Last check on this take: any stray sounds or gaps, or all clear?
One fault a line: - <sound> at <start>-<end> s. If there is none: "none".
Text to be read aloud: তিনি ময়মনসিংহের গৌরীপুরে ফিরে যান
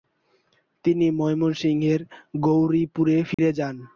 - dropout at 3.3-3.4 s